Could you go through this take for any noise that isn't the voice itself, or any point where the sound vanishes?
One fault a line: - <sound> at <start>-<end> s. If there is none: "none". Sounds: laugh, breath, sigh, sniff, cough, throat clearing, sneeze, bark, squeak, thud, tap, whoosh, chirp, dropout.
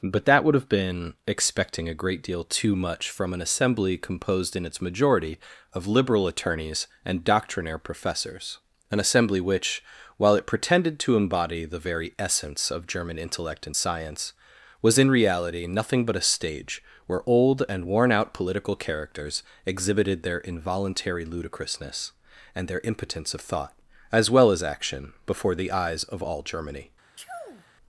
- sneeze at 27.2-27.7 s